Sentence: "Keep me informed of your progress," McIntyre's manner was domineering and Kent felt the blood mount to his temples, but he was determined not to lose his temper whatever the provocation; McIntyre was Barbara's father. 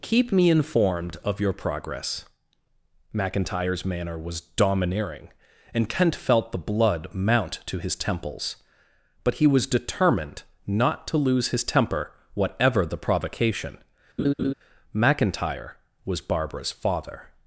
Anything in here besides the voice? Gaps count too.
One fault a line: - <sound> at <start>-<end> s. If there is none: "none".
- laugh at 14.2-14.5 s